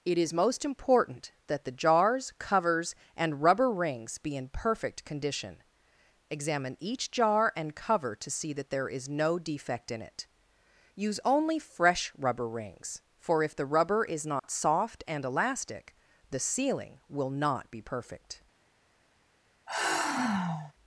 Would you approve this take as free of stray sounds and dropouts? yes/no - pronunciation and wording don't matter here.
no